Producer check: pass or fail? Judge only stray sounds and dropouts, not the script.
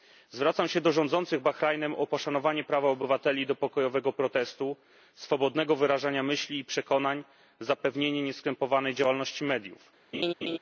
fail